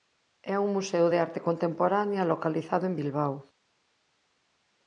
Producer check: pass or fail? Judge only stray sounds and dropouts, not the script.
pass